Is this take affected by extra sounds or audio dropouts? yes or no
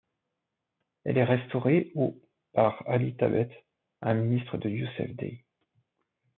no